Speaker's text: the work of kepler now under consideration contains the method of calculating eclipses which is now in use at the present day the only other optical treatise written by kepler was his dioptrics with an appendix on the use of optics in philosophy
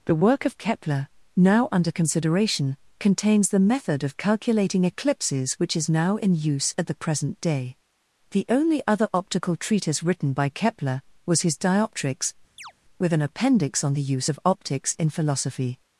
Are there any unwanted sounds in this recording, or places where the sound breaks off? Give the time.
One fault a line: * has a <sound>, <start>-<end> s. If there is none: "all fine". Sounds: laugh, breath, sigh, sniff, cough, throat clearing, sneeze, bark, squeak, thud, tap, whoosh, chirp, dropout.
* has a chirp, 12.6-12.7 s